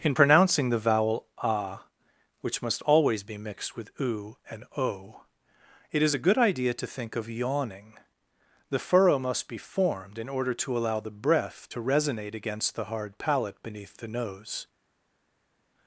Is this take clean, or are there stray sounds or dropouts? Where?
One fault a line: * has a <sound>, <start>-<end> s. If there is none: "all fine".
all fine